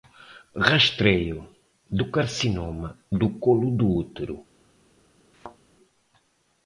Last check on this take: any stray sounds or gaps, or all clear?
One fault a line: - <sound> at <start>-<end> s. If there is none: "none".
- thud at 5.3-5.6 s